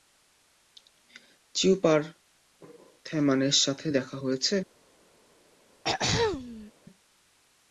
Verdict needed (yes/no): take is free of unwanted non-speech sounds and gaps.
no